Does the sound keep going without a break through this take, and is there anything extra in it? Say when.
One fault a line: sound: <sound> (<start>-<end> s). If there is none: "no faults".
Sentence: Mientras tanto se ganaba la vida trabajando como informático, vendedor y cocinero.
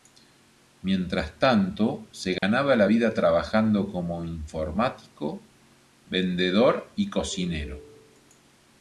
sound: dropout (2.4-2.4 s)